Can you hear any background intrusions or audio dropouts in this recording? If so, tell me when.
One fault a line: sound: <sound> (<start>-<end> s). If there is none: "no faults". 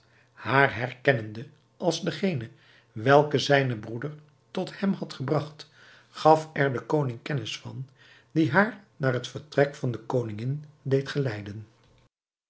no faults